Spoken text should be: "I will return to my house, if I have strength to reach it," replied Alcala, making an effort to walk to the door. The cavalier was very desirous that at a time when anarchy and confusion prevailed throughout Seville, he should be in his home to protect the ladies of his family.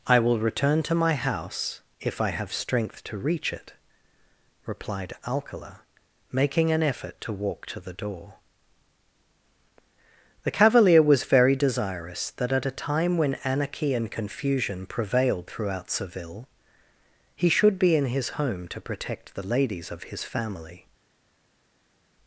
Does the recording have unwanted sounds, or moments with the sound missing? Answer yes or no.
no